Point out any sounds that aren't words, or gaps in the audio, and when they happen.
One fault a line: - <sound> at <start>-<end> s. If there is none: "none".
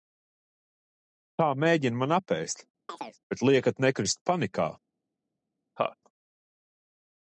- chirp at 2.9-3.2 s
- laugh at 5.8-6.0 s